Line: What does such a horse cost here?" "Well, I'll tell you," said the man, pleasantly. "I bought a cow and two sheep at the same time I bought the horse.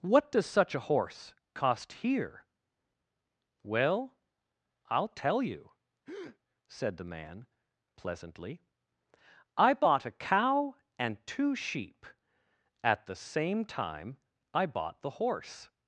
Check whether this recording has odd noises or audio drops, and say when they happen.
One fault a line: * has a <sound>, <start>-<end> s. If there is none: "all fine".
* has a breath, 6.1-6.4 s